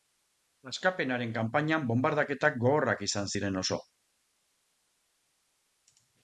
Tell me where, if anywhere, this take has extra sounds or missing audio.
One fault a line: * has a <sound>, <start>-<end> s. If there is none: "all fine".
all fine